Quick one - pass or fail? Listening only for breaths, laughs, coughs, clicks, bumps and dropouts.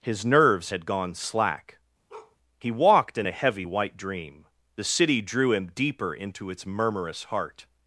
fail